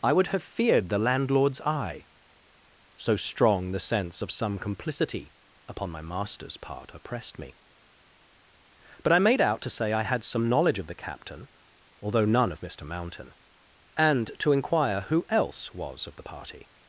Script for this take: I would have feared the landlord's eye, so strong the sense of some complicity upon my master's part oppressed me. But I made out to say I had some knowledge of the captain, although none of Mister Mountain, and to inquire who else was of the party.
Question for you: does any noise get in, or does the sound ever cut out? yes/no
no